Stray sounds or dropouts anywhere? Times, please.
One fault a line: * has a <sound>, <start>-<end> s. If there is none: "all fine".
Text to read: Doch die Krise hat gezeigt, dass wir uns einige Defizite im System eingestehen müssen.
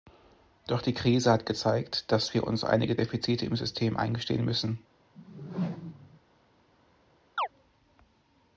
* has a whoosh, 5.1-6.2 s
* has a chirp, 7.4-7.5 s